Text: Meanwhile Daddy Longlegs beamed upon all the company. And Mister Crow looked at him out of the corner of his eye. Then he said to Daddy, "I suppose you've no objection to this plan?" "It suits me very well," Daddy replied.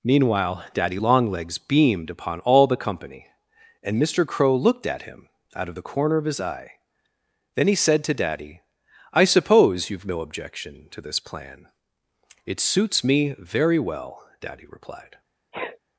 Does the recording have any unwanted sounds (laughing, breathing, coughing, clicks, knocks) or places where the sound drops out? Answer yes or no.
yes